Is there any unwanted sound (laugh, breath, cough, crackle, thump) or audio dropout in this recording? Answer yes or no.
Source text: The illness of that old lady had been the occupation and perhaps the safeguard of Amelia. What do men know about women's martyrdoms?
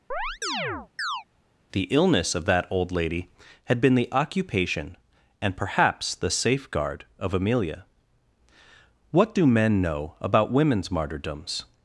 yes